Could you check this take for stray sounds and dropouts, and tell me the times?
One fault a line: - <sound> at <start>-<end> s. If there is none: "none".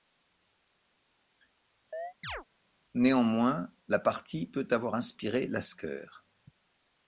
- chirp at 1.9-2.4 s